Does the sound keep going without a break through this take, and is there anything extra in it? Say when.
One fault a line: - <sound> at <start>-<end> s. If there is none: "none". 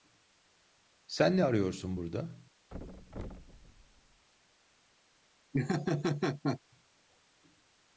- thud at 2.7-4.2 s
- laugh at 5.5-6.6 s